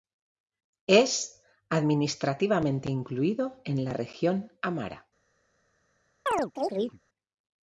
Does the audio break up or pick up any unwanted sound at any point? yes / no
yes